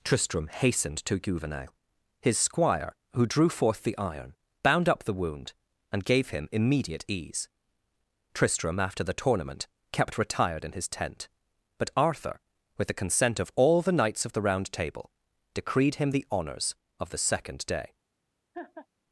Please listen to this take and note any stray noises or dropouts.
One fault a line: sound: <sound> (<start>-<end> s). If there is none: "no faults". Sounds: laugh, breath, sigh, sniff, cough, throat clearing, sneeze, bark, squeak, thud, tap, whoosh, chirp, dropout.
sound: laugh (18.5-18.9 s)